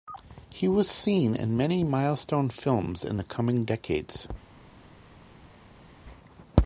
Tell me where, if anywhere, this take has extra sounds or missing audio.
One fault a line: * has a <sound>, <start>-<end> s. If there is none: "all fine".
all fine